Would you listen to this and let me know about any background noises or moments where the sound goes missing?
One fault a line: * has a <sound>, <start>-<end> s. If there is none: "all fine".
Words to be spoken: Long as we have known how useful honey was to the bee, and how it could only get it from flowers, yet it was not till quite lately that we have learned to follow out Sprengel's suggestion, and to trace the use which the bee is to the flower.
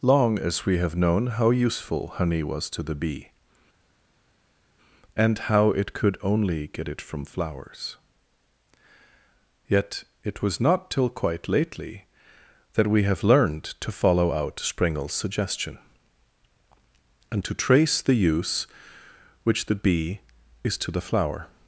all fine